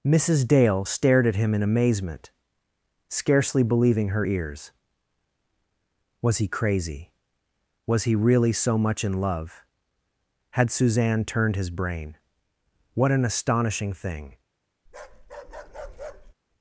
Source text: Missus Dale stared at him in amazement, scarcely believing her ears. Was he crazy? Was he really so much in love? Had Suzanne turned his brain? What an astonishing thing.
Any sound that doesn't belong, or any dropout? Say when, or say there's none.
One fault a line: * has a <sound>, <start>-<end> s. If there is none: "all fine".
* has a bark, 14.9-16.3 s